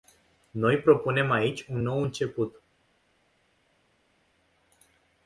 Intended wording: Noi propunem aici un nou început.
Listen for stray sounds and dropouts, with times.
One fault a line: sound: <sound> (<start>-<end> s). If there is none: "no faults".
no faults